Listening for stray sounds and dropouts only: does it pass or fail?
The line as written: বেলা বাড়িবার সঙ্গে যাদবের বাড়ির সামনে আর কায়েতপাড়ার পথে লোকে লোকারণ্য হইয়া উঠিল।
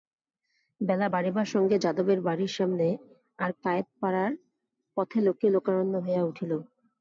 pass